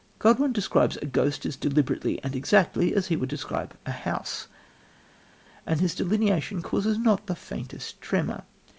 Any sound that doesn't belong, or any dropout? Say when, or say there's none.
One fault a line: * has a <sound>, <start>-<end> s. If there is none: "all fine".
all fine